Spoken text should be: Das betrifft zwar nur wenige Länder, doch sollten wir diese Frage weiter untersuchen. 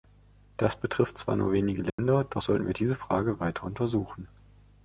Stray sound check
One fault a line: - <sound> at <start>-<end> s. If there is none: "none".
- dropout at 1.9-2.0 s